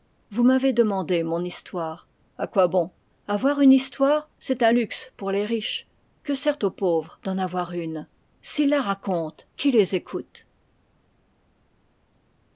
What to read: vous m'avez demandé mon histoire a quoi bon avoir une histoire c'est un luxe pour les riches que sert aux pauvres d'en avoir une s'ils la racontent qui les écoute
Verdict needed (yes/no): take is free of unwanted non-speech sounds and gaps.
yes